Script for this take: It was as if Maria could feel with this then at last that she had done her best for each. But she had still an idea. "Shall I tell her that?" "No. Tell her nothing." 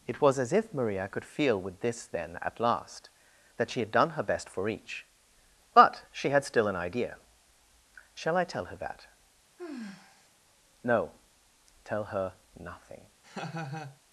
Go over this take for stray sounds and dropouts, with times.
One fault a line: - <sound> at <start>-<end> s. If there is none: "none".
- sigh at 9.6-10.3 s
- laugh at 13.2-14.0 s